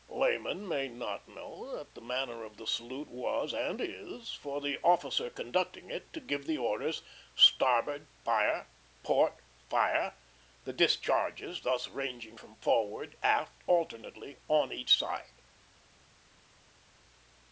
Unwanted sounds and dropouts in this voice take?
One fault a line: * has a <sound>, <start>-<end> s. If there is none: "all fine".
all fine